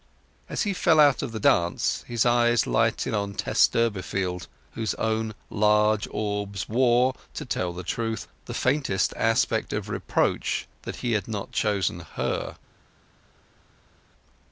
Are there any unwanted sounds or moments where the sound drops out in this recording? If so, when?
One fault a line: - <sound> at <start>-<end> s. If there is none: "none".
none